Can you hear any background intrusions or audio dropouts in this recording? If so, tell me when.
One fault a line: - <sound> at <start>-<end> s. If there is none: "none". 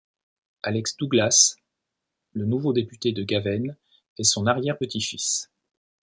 none